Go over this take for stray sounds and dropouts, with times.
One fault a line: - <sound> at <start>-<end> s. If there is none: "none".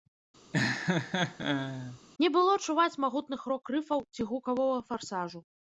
- laugh at 0.5-2.0 s